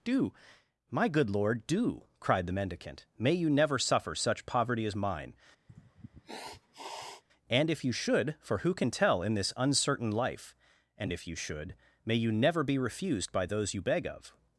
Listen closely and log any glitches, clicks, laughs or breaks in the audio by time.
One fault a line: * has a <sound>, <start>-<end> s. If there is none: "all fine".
* has a sniff, 5.7-7.2 s